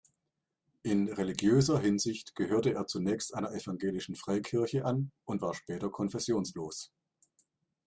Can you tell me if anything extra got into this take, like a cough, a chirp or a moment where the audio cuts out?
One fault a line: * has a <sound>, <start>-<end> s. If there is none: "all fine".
all fine